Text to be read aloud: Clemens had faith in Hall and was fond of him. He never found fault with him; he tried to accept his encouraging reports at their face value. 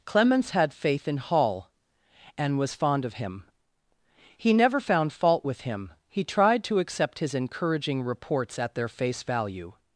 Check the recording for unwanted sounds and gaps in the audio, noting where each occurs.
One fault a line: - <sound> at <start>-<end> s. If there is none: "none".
none